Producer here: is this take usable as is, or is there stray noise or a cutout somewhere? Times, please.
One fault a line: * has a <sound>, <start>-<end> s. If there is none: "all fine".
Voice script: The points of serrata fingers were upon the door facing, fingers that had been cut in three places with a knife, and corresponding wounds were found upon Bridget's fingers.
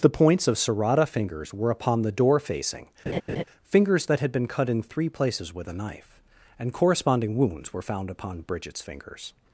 * has a laugh, 3.1-3.4 s